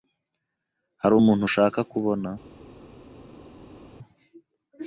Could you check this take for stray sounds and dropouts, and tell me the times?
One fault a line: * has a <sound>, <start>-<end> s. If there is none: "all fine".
all fine